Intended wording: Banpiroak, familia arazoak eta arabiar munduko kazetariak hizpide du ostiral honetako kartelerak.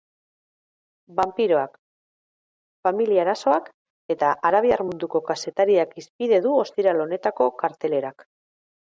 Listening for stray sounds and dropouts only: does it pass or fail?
pass